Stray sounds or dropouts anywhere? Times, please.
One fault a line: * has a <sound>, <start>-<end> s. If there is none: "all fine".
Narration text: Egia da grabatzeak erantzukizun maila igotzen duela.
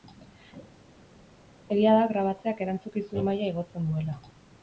all fine